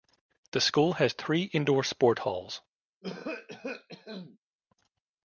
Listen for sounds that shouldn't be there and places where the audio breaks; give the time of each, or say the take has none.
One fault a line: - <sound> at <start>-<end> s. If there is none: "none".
- cough at 3.0-4.4 s